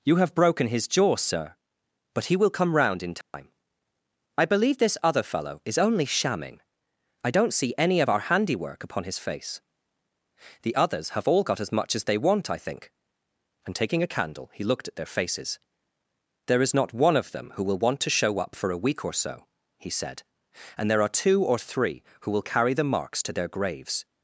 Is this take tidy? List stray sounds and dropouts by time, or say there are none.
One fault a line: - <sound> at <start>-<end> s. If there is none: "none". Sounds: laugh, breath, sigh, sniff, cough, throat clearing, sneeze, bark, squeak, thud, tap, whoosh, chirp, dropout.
- dropout at 3.2-3.3 s